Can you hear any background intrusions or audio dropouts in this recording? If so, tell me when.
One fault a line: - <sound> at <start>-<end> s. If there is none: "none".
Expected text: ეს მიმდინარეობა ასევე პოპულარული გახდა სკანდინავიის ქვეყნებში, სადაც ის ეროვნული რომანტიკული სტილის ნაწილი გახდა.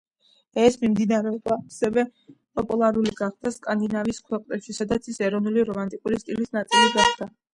none